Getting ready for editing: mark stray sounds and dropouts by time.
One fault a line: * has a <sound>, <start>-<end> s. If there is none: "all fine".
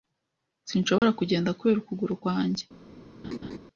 * has a dropout, 1.0-1.0 s
* has a laugh, 3.2-3.6 s